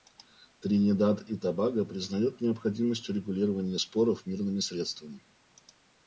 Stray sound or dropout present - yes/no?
no